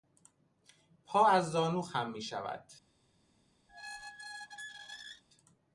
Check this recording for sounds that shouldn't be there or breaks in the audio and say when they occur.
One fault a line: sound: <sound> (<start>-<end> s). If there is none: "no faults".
sound: squeak (3.7-5.2 s)